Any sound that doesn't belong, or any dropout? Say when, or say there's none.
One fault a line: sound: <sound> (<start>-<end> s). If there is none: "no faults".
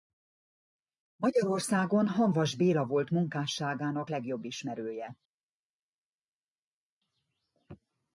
no faults